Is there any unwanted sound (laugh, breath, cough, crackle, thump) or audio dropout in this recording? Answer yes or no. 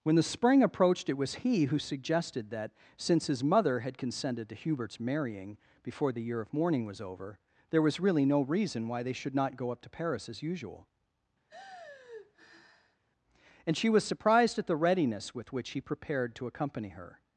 yes